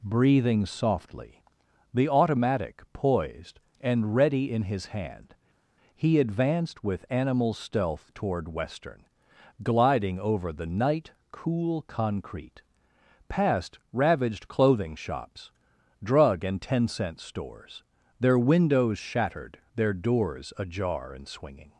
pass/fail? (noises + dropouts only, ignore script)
pass